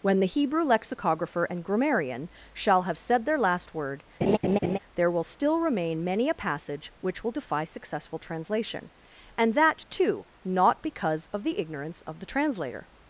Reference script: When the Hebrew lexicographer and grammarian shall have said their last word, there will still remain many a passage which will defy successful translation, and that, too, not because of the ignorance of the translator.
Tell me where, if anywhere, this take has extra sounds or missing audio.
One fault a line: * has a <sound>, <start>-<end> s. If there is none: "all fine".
* has a laugh, 4.2-4.8 s